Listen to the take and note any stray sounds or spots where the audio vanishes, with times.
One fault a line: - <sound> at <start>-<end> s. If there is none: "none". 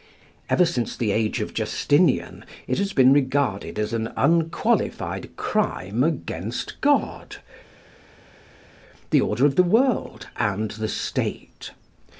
none